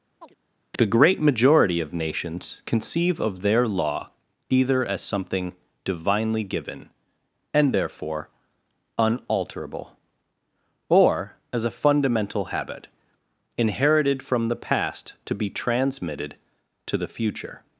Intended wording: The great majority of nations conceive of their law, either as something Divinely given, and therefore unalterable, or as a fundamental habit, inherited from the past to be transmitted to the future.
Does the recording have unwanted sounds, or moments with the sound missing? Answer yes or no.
yes